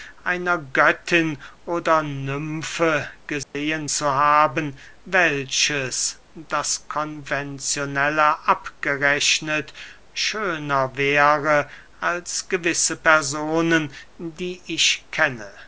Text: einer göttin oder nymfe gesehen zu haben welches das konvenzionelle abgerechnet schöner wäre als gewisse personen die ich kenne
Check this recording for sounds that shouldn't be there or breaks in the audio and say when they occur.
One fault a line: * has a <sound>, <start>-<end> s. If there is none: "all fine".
* has a dropout, 3.4-3.5 s